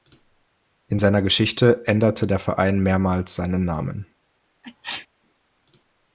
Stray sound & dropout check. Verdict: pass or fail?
fail